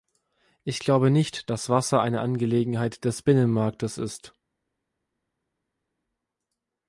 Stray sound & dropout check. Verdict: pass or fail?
pass